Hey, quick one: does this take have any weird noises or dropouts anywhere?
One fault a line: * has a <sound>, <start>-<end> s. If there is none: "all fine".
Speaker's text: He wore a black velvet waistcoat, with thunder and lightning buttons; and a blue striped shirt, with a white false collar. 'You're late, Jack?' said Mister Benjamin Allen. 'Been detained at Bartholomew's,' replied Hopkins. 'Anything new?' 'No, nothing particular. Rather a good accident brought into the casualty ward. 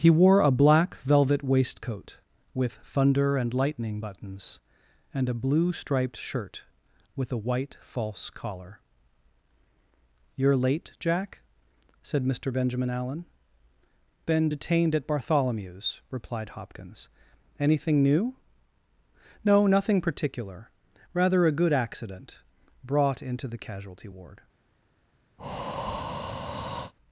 * has a breath, 25.4-26.9 s